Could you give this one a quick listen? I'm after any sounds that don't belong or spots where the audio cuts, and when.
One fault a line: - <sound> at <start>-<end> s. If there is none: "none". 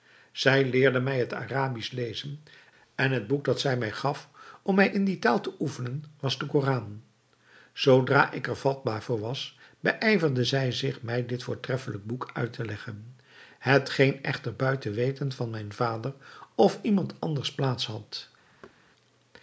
- thud at 18.6-18.8 s